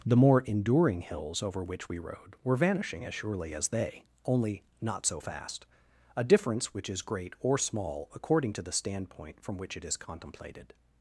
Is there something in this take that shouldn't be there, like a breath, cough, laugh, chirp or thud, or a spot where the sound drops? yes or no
no